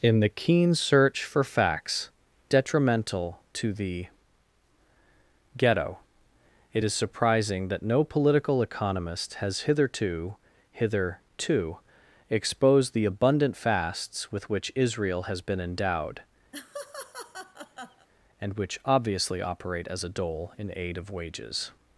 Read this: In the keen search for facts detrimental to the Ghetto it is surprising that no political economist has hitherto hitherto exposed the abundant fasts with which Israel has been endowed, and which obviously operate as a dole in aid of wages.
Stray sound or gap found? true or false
true